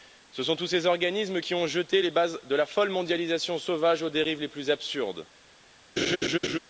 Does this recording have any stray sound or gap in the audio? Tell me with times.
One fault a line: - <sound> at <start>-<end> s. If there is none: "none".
- laugh at 6.0-6.6 s